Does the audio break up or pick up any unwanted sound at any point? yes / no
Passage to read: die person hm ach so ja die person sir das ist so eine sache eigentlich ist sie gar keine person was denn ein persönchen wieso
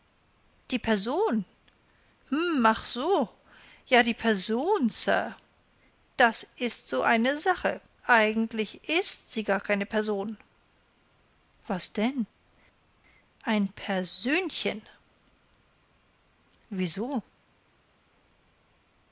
no